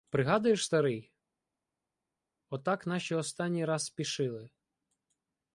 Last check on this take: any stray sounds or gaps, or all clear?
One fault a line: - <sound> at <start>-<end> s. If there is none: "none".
none